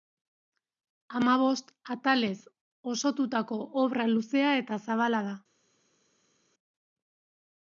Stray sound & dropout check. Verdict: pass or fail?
pass